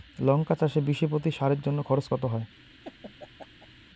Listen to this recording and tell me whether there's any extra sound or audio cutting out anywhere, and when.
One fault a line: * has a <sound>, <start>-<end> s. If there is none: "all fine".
* has a laugh, 2.6-3.9 s